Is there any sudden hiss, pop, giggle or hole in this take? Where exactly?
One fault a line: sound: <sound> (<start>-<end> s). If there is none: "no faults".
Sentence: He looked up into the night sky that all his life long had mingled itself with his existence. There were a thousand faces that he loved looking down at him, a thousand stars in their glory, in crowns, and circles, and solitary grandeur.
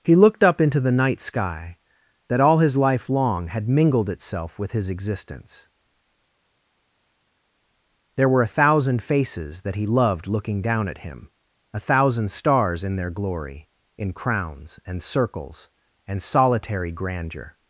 no faults